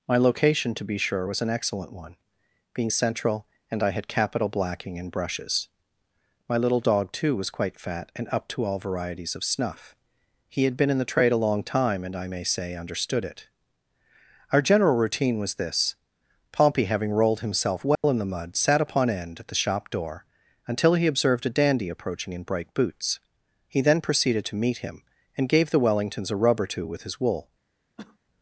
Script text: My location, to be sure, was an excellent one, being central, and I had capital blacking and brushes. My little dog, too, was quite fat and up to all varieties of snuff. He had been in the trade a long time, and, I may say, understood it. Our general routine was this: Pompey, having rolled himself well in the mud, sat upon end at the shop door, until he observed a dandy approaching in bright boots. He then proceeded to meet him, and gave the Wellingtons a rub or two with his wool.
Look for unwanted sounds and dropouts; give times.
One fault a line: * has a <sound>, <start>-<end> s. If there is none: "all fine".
* has a dropout, 17.9-18.0 s
* has a cough, 28.0-28.2 s